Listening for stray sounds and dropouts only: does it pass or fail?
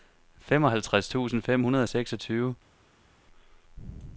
pass